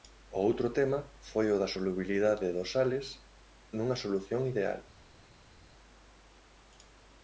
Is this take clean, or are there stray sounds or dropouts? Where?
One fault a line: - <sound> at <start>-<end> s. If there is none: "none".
none